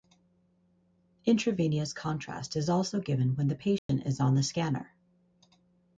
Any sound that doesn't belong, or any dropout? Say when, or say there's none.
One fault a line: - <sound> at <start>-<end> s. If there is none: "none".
- dropout at 3.8-3.9 s